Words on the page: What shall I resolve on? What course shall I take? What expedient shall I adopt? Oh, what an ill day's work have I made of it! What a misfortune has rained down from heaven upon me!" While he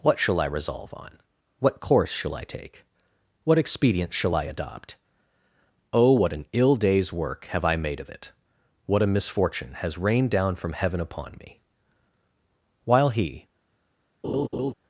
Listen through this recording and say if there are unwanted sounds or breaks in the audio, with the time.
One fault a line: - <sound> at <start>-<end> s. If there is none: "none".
- laugh at 14.2-14.7 s